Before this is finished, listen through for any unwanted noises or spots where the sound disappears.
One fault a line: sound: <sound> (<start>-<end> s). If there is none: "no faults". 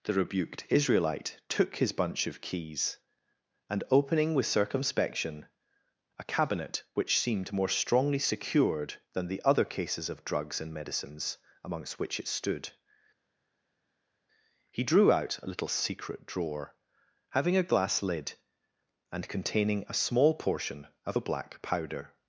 no faults